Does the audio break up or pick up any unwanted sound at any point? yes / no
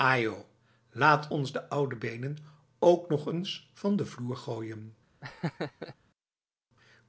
yes